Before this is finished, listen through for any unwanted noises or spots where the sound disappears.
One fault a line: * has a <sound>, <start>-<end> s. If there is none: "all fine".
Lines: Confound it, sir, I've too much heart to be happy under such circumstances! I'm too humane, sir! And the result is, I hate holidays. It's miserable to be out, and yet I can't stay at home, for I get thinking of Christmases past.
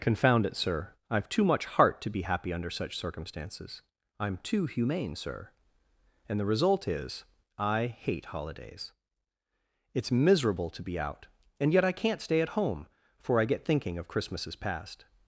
all fine